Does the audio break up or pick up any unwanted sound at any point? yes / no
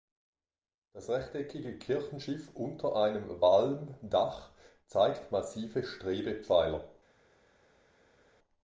no